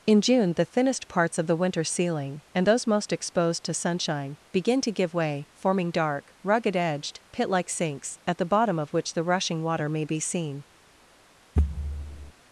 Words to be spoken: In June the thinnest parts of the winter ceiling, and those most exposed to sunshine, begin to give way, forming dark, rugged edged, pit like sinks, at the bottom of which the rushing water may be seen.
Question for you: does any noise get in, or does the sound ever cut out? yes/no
yes